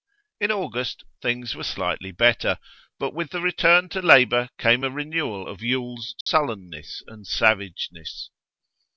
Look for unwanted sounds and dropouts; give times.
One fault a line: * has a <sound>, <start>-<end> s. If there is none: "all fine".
* has a dropout, 6.2-6.3 s